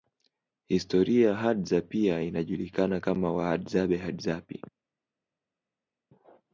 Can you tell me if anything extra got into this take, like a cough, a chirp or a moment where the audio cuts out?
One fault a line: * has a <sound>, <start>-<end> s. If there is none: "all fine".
all fine